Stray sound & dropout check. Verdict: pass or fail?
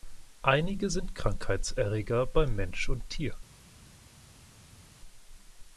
pass